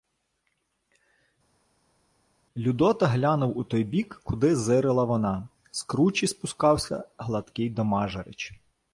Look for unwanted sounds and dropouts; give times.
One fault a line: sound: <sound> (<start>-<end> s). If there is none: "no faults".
no faults